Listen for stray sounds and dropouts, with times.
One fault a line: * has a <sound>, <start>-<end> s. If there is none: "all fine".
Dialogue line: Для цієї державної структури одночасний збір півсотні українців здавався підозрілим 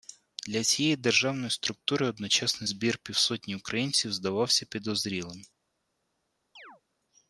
* has a chirp, 6.6-6.8 s